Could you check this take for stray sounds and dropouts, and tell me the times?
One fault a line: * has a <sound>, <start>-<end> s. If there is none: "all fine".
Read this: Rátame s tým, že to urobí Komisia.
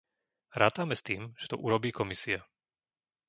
all fine